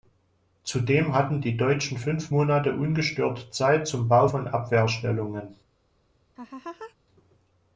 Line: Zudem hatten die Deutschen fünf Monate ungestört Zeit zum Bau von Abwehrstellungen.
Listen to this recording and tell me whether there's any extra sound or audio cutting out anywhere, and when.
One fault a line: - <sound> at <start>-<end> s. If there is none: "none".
- laugh at 6.4-7.0 s